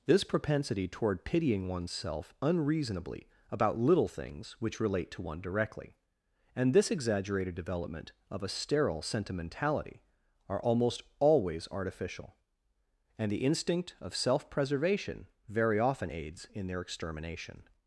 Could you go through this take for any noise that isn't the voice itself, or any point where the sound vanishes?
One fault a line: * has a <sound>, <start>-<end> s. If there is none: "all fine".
all fine